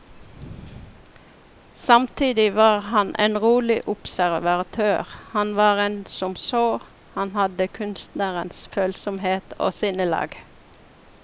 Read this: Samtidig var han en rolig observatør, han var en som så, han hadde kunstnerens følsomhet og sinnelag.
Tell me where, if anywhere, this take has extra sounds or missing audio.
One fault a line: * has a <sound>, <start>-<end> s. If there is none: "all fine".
all fine